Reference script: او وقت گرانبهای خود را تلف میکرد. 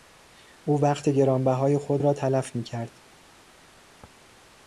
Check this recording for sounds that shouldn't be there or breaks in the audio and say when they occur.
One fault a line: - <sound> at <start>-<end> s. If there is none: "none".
none